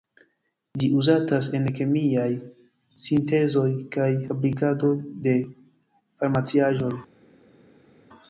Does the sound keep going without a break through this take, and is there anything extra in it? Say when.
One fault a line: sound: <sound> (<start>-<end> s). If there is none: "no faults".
no faults